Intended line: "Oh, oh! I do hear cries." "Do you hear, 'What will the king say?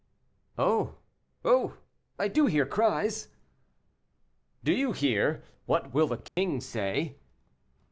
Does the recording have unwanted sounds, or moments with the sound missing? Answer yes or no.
yes